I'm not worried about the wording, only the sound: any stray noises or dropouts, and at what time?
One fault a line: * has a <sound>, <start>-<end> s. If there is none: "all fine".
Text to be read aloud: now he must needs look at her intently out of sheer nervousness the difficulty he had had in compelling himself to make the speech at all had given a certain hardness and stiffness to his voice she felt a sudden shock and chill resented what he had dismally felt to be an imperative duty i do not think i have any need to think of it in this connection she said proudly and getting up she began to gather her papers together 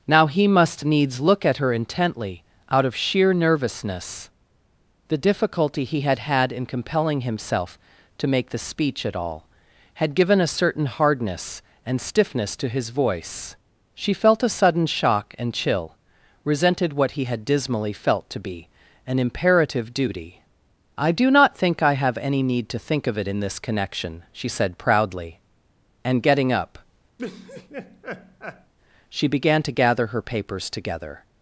* has a laugh, 27.2-28.7 s